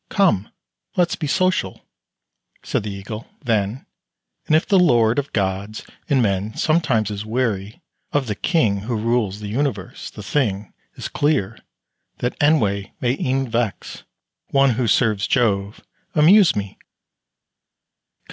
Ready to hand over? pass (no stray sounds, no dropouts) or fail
pass